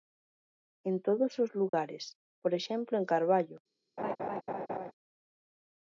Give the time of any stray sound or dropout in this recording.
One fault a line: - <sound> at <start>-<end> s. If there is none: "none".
- dropout at 1.7-1.7 s
- laugh at 4.0-4.9 s